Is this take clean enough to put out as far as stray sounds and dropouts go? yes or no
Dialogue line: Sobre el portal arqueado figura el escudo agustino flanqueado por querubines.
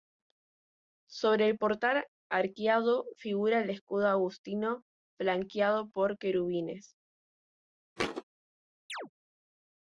no